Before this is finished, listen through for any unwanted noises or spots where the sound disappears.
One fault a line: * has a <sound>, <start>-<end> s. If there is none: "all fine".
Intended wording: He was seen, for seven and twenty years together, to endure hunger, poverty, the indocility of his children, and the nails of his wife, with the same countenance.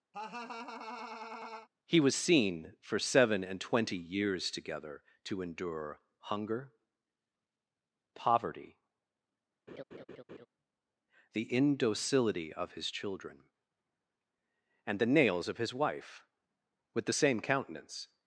* has a laugh, 0.1-1.7 s
* has a laugh, 9.7-10.5 s